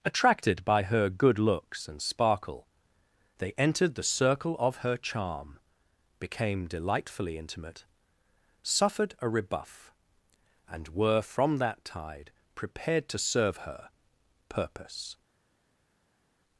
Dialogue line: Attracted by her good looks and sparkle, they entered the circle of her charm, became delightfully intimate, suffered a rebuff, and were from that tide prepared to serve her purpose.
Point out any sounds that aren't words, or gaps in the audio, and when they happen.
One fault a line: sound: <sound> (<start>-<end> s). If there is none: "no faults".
no faults